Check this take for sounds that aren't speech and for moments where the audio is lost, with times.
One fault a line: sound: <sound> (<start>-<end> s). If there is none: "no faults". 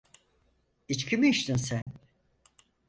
sound: dropout (1.8-1.9 s)